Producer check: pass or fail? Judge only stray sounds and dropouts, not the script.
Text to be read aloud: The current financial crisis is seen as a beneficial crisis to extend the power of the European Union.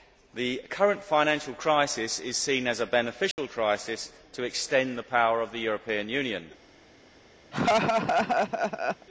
fail